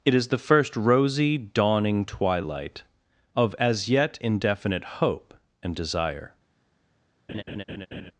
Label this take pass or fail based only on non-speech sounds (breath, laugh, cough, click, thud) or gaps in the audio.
fail